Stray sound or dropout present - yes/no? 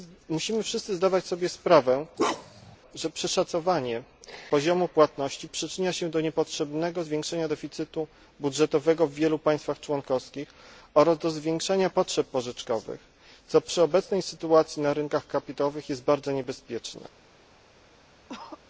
yes